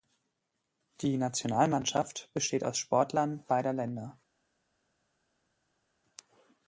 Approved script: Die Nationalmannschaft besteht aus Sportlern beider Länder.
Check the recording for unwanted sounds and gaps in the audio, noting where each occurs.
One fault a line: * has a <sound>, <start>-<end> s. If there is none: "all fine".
all fine